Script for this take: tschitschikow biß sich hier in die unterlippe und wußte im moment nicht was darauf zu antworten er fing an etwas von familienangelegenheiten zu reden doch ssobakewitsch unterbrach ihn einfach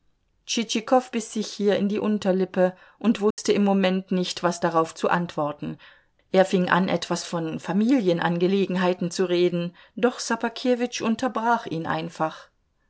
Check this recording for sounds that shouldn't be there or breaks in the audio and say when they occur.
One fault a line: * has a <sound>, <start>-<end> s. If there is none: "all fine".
* has a dropout, 3.3-3.4 s